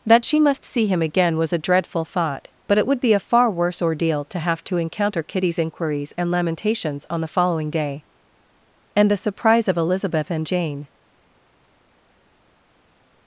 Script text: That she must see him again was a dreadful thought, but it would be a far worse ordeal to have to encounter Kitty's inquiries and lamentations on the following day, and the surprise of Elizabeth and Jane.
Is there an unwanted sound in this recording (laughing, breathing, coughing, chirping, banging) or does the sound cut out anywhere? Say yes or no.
no